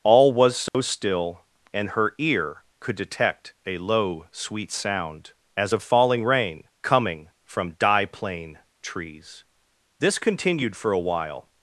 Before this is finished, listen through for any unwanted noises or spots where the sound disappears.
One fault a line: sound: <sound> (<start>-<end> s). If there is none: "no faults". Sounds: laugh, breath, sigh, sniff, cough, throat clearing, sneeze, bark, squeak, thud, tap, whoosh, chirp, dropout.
sound: dropout (0.7-0.7 s)